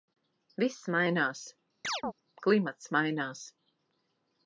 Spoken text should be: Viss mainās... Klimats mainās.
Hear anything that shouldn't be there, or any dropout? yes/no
yes